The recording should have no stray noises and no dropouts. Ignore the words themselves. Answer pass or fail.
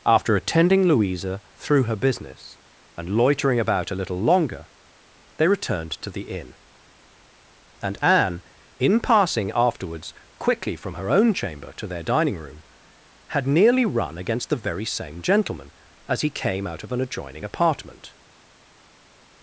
pass